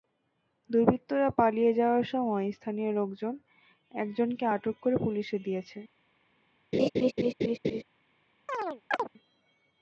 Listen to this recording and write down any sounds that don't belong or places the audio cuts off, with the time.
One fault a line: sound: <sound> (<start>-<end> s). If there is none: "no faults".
sound: laugh (6.7-7.8 s)
sound: chirp (8.5-9.1 s)